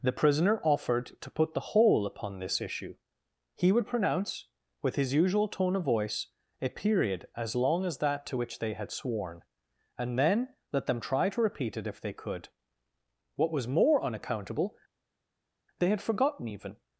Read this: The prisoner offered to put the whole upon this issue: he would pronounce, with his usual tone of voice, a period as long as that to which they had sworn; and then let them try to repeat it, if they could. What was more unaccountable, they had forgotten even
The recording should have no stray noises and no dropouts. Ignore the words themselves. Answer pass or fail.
pass